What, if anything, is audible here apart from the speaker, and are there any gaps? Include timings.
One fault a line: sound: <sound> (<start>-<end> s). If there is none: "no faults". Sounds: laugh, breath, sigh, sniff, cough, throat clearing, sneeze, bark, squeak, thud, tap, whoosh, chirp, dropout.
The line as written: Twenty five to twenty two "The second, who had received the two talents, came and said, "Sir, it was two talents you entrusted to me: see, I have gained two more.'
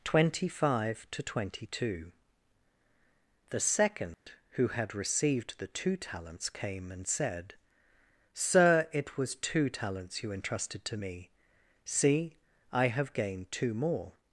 sound: dropout (4.1-4.3 s)